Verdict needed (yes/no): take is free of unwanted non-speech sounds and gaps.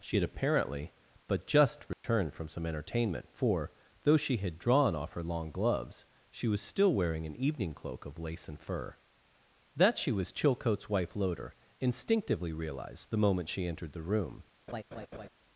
no